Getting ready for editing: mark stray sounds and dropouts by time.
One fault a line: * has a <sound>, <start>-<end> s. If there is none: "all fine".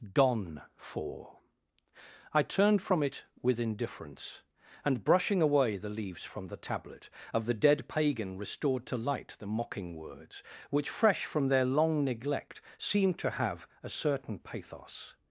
all fine